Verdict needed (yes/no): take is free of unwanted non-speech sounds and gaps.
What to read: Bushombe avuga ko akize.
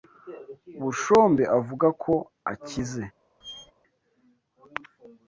no